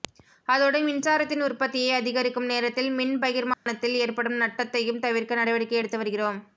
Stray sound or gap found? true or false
true